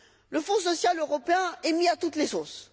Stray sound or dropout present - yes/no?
no